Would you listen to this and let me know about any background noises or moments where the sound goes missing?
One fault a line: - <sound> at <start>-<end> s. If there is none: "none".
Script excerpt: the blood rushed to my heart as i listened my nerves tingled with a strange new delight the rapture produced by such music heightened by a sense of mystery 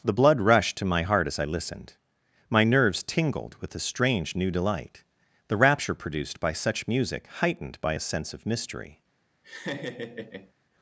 - laugh at 9.4-10.5 s